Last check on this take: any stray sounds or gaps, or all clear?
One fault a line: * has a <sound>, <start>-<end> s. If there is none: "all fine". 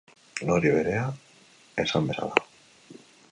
all fine